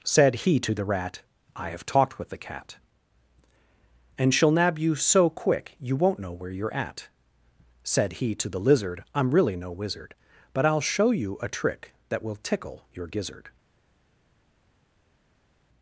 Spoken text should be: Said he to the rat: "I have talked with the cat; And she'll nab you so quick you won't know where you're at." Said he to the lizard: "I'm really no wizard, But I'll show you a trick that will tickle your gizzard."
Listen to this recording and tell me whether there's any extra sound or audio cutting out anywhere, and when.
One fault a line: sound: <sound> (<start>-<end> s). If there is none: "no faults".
no faults